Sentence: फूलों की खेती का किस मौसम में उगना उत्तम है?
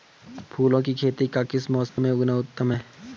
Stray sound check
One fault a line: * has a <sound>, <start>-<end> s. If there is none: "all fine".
* has a dropout, 1.9-2.0 s